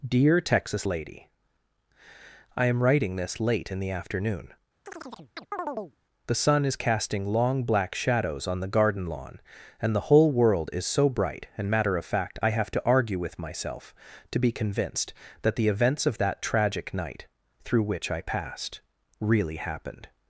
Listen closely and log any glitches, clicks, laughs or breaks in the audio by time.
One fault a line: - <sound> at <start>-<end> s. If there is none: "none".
- chirp at 4.9-6.0 s